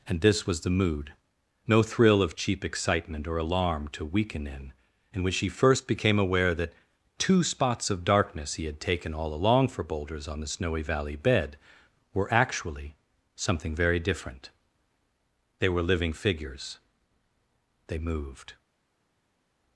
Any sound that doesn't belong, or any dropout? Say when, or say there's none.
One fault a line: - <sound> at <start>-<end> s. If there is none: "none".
none